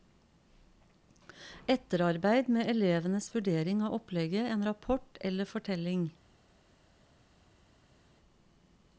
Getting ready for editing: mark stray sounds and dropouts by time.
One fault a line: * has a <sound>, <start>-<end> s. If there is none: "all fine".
all fine